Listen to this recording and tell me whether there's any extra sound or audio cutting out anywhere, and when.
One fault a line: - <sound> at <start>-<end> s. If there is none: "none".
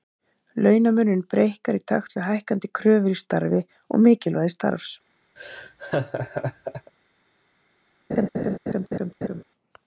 - laugh at 5.4-6.9 s
- laugh at 8.1-9.4 s